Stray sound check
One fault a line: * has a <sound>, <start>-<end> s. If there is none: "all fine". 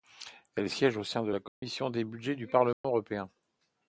* has a dropout, 1.5-1.6 s
* has a dropout, 2.7-2.8 s